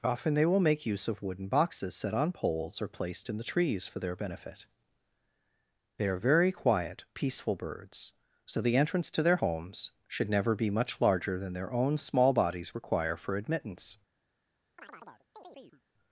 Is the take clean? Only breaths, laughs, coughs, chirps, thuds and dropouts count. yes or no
no